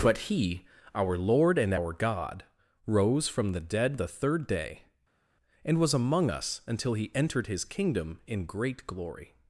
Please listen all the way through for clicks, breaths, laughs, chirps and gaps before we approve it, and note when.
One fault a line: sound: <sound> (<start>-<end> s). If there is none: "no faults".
no faults